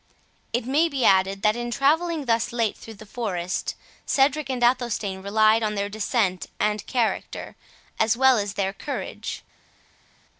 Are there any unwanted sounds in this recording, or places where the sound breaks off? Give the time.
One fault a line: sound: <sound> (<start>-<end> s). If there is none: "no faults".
no faults